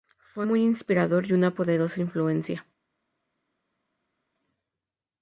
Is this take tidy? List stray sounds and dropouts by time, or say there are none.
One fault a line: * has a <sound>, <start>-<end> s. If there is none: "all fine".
all fine